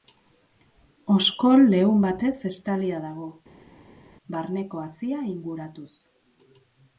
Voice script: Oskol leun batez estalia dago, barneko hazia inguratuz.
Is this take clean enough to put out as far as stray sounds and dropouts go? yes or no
yes